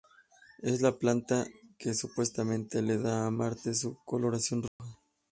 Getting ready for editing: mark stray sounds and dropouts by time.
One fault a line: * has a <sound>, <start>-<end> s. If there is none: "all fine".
* has a dropout, 4.7-4.8 s